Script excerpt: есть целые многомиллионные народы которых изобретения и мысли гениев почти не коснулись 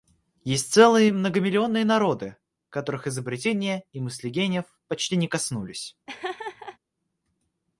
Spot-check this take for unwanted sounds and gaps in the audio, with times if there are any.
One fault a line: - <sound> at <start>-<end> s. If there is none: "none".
- laugh at 6.1-6.8 s